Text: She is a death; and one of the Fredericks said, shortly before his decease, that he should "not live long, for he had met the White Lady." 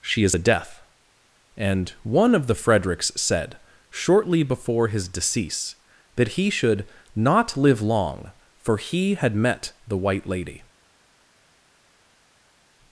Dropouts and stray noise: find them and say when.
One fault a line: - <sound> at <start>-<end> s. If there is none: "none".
none